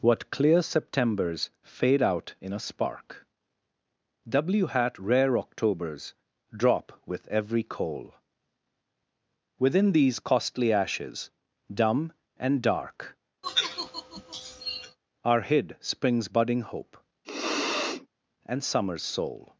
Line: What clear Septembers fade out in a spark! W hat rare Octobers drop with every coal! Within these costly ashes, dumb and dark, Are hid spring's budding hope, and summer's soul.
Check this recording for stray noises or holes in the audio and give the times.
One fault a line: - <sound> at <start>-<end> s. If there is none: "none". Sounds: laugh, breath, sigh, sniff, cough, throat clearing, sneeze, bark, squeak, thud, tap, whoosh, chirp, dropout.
- sigh at 13.4-15.0 s
- sniff at 17.2-18.1 s